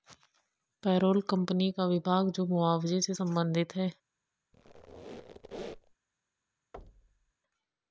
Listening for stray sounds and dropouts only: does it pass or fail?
fail